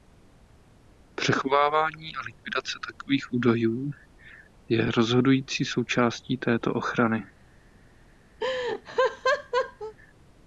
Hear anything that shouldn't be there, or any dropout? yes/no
yes